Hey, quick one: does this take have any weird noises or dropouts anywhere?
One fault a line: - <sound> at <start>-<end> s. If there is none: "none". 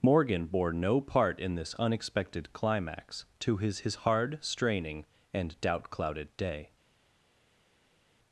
none